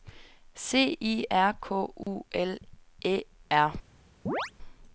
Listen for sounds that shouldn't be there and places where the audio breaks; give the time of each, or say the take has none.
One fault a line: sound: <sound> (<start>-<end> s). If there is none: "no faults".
sound: dropout (2.0-2.1 s)
sound: chirp (4.3-4.5 s)